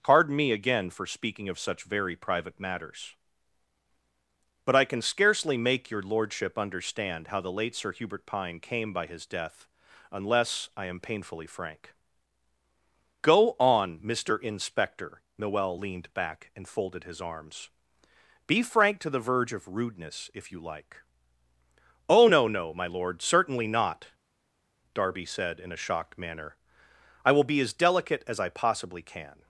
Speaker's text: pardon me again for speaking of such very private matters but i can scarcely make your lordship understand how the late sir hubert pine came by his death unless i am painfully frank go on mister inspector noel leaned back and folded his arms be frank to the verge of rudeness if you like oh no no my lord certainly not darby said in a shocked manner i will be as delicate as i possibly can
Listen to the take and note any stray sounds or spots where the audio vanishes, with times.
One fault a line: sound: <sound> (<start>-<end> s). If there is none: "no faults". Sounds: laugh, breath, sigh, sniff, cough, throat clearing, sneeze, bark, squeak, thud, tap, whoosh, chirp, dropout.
no faults